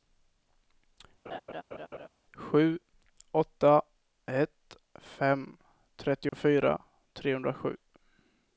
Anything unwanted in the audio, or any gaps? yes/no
yes